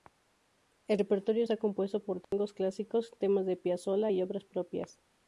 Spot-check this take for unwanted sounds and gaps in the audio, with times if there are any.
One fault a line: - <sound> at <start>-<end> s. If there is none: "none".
- dropout at 2.2-2.3 s